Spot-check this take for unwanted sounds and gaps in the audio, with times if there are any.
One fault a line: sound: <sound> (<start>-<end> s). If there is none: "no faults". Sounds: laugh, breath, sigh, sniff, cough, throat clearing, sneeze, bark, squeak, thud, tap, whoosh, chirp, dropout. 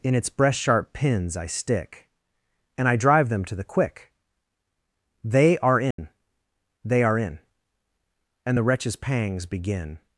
sound: dropout (5.9-6.0 s)